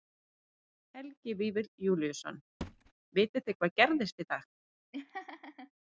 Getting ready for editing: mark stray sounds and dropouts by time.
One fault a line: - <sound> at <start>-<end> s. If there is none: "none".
- thud at 2.6-2.9 s
- laugh at 4.9-5.7 s